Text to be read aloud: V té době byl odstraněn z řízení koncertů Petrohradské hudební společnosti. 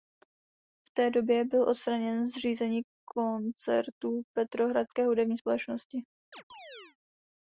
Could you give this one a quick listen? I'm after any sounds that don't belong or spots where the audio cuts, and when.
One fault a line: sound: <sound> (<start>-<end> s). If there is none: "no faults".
sound: chirp (6.3-7.0 s)